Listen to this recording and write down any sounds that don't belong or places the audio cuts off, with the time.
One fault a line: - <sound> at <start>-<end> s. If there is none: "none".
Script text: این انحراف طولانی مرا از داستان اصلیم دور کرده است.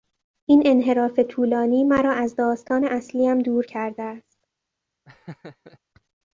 - laugh at 5.1-5.8 s